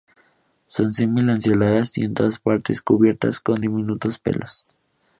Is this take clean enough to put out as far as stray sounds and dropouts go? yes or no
yes